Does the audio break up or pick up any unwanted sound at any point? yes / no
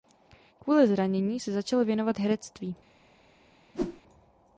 yes